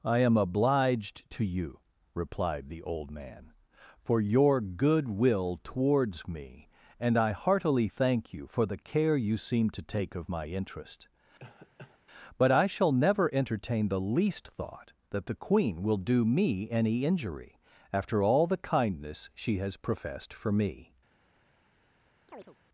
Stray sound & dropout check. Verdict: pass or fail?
fail